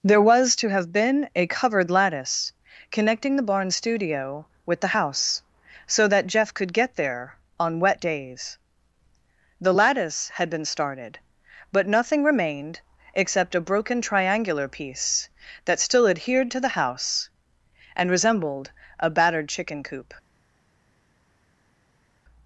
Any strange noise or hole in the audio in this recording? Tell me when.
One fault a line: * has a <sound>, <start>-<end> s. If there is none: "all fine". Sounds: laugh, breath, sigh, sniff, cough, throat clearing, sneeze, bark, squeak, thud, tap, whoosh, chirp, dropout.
all fine